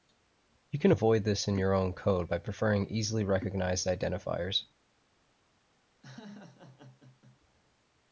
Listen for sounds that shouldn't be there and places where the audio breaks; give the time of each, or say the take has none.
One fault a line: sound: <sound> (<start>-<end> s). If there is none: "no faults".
sound: laugh (6.0-7.4 s)